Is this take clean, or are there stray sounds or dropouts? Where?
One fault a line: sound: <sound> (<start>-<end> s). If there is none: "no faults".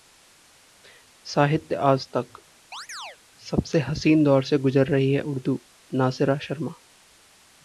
sound: chirp (2.7-3.2 s)